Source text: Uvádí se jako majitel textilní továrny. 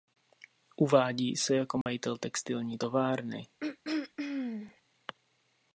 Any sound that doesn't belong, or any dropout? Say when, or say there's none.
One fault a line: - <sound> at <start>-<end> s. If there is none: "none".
- dropout at 1.8-1.9 s
- throat clearing at 3.6-4.8 s